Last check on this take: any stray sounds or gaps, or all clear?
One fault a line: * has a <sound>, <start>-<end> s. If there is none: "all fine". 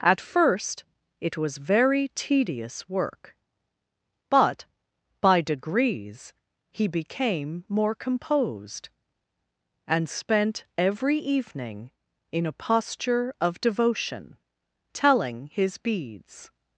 all fine